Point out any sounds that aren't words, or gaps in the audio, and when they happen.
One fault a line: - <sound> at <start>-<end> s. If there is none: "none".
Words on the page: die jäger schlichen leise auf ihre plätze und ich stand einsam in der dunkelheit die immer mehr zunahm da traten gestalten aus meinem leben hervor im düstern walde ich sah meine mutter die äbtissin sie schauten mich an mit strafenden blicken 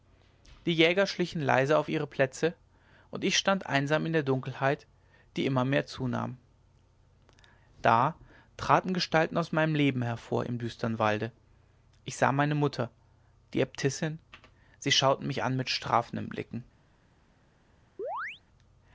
- chirp at 18.0-18.4 s